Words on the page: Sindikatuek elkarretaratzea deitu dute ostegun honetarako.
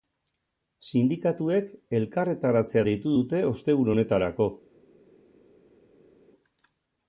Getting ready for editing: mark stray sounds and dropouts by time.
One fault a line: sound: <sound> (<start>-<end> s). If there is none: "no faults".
no faults